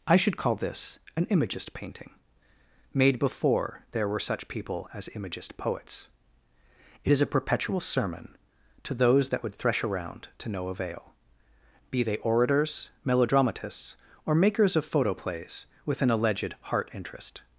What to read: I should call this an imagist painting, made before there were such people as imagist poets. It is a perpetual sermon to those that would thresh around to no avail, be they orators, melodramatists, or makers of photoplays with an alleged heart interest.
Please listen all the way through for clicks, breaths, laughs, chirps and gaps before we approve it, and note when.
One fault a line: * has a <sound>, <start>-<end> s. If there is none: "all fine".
all fine